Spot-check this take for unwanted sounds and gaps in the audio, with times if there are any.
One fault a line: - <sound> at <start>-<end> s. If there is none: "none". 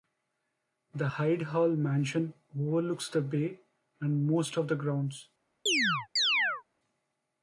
- chirp at 5.7-6.6 s